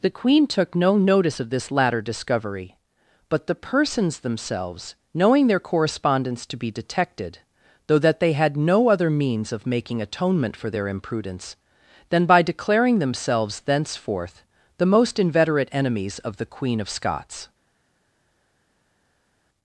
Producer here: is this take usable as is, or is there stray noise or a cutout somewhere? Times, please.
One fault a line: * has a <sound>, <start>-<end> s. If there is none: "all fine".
all fine